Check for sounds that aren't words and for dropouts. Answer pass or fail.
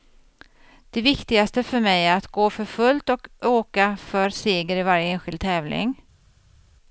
pass